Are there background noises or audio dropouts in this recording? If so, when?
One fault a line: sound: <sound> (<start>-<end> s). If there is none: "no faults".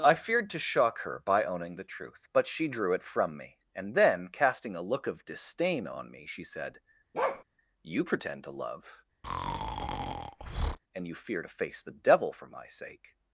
sound: bark (7.1-7.4 s)
sound: breath (9.2-10.8 s)